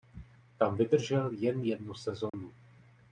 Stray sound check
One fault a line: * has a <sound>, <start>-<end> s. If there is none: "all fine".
* has a dropout, 2.3-2.3 s